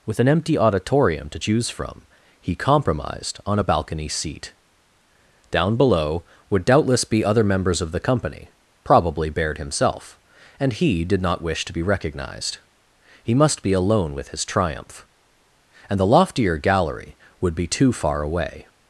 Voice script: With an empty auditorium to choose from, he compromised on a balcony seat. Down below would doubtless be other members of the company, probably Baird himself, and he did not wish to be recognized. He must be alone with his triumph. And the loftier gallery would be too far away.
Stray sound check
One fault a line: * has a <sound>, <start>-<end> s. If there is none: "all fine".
all fine